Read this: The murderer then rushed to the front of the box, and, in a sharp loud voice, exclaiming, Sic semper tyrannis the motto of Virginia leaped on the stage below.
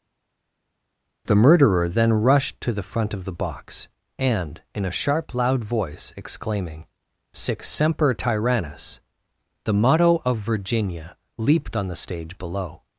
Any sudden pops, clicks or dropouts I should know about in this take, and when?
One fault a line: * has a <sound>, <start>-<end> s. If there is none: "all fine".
all fine